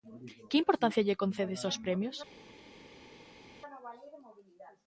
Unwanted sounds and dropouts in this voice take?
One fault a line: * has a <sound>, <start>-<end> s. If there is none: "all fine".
all fine